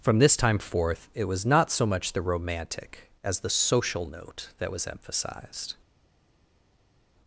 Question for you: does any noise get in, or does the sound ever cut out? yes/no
no